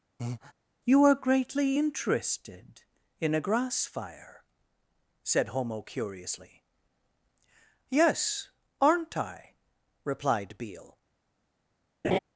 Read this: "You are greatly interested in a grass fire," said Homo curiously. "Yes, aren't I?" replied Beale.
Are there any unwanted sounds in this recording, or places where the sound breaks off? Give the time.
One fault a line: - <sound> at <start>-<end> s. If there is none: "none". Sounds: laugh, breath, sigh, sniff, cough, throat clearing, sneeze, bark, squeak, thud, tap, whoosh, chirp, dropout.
- breath at 0.2-0.5 s
- laugh at 12.0-12.2 s